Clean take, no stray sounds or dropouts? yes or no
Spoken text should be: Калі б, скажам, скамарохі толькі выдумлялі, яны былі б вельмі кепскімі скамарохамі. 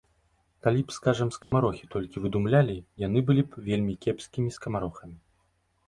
no